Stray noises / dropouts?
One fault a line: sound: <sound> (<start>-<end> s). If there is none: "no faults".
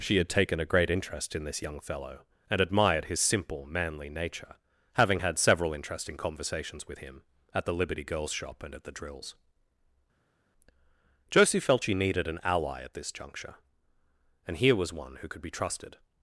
no faults